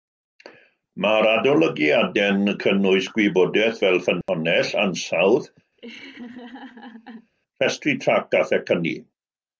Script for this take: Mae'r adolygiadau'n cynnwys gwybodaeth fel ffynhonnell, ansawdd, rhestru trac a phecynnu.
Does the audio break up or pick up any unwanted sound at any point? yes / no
yes